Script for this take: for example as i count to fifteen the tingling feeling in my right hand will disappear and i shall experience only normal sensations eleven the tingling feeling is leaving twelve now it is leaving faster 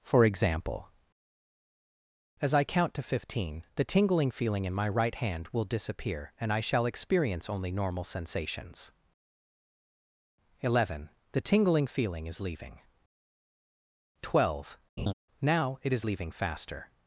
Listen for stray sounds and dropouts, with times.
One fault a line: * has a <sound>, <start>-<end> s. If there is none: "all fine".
* has a laugh, 15.0-15.1 s